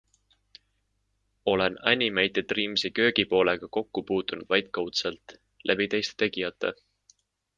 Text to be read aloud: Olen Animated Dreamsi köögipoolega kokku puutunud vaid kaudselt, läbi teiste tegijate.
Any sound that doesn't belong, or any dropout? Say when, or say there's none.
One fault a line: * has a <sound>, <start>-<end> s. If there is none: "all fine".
all fine